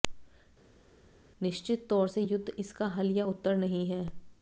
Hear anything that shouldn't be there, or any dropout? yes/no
no